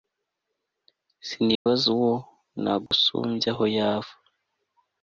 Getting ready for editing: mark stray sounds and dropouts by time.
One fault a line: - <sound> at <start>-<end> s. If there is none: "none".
- dropout at 1.5-1.7 s
- dropout at 2.9-2.9 s